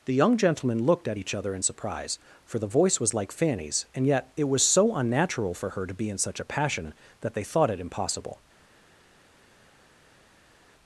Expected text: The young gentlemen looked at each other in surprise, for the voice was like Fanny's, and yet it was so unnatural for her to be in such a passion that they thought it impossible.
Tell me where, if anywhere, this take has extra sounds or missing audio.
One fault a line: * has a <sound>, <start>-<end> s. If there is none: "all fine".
all fine